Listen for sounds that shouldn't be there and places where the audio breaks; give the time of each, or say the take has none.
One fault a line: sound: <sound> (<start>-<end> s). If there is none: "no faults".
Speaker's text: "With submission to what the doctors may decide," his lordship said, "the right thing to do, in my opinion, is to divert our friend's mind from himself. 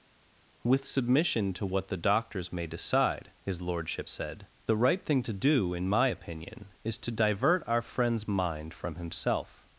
no faults